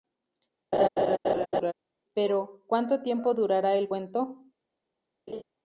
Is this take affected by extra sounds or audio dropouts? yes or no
yes